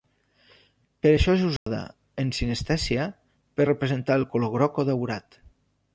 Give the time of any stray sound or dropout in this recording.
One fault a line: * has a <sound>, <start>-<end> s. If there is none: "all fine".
* has a dropout, 1.6-1.7 s